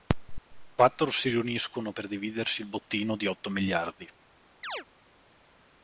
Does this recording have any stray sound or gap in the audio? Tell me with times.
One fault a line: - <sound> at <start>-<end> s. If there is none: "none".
- dropout at 0.4-0.5 s
- chirp at 4.6-4.9 s